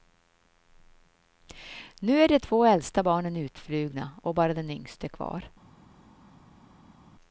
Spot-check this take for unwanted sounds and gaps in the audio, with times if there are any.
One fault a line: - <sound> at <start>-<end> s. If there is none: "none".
none